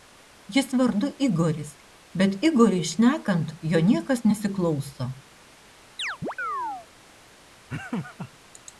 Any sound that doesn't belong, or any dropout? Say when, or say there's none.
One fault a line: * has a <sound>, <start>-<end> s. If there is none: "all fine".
* has a chirp, 6.0-6.9 s
* has a laugh, 7.7-8.3 s